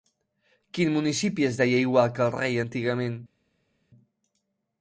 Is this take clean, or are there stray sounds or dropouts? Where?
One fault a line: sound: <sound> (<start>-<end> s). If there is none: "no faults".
no faults